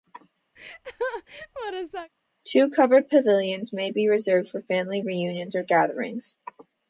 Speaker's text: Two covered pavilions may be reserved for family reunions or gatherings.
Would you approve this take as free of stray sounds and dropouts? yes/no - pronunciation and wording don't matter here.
no